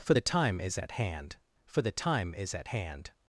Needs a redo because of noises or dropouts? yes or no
no